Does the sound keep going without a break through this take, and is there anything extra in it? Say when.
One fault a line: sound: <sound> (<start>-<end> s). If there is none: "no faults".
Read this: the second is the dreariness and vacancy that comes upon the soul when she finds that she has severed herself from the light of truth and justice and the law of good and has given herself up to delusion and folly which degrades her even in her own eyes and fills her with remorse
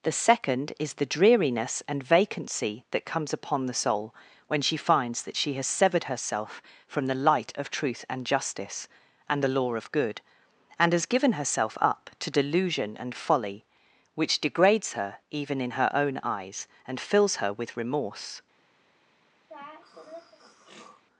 sound: throat clearing (19.5-21.0 s)